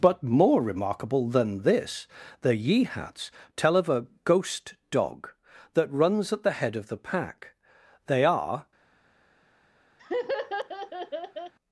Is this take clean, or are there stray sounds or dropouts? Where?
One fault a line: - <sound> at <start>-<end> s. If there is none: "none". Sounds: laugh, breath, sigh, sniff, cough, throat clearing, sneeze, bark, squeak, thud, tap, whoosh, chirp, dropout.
- laugh at 10.0-11.5 s